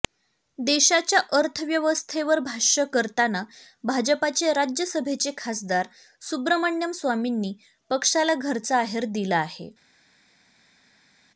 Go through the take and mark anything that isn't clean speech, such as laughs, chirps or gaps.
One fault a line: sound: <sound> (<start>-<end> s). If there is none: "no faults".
no faults